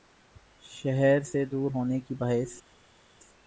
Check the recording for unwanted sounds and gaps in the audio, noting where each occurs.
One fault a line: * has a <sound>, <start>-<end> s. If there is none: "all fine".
all fine